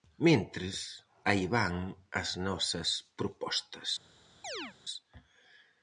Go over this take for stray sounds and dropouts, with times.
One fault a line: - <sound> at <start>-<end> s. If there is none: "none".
- chirp at 4.4-4.8 s